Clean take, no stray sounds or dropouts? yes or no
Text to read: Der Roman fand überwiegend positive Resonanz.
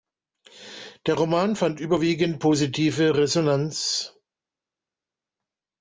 yes